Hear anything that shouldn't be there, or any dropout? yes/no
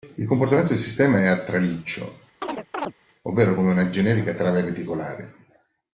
yes